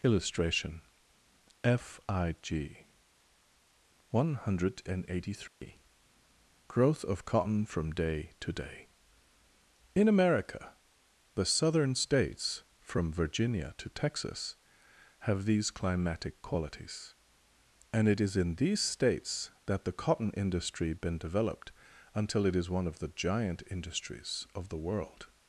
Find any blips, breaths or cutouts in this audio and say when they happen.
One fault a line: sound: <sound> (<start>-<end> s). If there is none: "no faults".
sound: dropout (5.5-5.6 s)